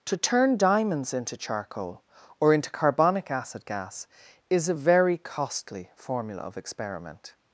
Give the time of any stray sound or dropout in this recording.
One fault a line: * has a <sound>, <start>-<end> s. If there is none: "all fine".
all fine